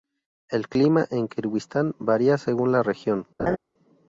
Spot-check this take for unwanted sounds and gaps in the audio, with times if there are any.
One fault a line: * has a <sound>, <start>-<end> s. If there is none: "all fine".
* has a laugh, 3.4-3.6 s